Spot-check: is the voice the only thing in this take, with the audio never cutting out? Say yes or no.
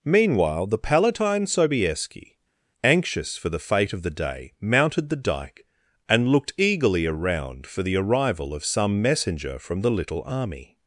yes